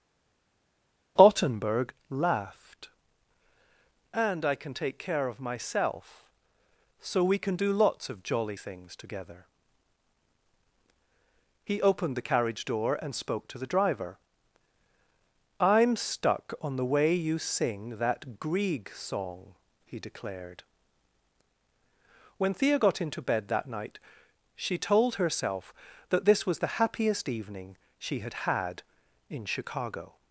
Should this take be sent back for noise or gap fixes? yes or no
no